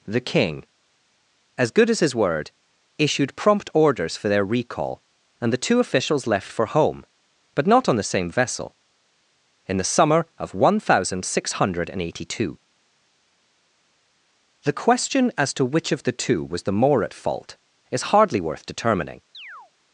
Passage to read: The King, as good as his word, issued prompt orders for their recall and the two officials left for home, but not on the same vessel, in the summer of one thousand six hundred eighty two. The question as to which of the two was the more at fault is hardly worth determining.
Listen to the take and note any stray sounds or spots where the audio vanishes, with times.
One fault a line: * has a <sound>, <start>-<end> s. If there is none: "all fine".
* has a chirp, 19.3-19.7 s